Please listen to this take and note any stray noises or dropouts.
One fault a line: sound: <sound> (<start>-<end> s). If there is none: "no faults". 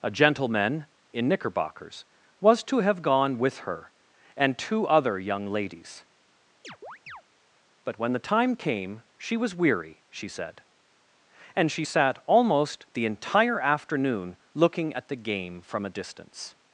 sound: chirp (6.6-7.2 s)